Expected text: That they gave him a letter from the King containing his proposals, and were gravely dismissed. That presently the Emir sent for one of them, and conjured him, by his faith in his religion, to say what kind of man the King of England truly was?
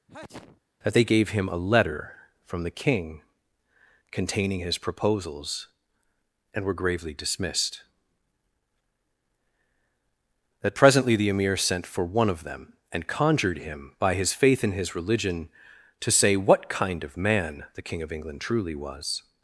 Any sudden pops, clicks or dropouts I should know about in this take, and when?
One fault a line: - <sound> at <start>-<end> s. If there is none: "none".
- sneeze at 0.1-0.6 s